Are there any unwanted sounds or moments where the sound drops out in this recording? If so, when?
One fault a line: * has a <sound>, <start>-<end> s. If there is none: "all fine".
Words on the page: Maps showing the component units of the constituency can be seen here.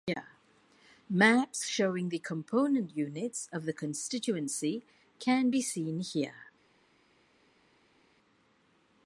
all fine